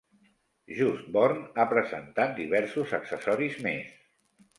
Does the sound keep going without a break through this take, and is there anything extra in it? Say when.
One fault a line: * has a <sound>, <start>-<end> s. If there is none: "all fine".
all fine